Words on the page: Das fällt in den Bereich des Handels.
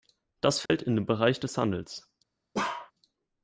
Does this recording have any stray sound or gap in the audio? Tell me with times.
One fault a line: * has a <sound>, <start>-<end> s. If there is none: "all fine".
* has a dropout, 0.7-0.7 s
* has a bark, 2.5-2.9 s